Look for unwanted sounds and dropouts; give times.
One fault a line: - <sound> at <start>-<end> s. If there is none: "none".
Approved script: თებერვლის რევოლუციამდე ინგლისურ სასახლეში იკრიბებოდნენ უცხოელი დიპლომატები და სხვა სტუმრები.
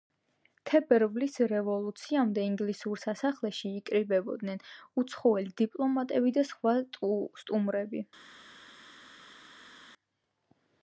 none